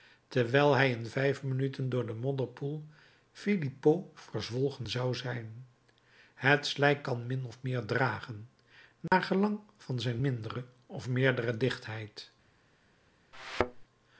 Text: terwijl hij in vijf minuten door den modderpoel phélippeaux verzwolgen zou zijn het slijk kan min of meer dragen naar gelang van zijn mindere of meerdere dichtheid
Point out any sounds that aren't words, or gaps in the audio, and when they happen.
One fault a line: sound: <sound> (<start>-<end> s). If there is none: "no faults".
sound: dropout (9.1-9.1 s)
sound: thud (13.3-13.8 s)